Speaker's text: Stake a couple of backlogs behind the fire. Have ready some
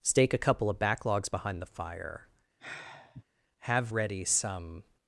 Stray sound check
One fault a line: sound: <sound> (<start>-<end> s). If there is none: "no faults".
sound: sigh (2.6-3.2 s)